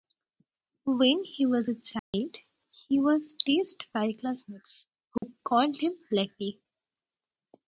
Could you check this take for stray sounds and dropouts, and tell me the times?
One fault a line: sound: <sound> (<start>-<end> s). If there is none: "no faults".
sound: dropout (2.0-2.1 s)
sound: dropout (5.2-5.2 s)